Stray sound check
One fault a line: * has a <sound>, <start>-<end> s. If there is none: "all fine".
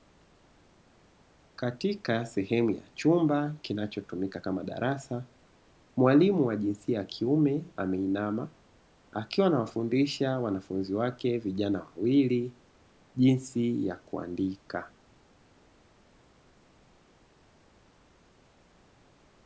all fine